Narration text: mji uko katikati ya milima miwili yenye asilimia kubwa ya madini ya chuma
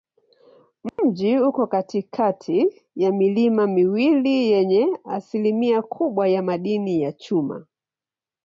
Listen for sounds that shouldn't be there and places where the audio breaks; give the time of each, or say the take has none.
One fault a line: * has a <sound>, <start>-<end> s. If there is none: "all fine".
* has a dropout, 0.9-1.0 s